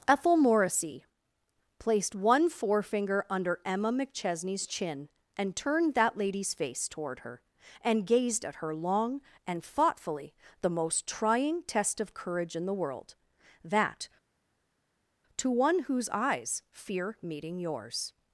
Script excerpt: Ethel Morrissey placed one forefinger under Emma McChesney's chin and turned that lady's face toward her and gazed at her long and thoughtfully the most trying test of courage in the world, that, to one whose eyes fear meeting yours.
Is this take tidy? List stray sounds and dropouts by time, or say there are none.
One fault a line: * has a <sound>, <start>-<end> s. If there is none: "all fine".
all fine